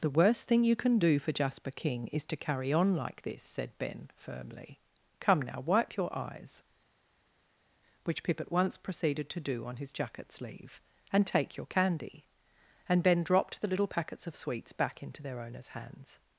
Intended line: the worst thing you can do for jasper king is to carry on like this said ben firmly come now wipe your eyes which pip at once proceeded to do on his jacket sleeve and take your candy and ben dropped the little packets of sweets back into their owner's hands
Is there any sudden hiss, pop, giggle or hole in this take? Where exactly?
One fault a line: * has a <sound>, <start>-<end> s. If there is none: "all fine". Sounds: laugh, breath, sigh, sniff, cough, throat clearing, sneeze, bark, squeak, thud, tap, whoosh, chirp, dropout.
all fine